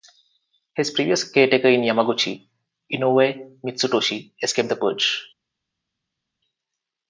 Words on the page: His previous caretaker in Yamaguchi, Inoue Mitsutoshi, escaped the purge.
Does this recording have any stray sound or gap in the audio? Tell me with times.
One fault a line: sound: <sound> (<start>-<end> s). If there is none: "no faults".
no faults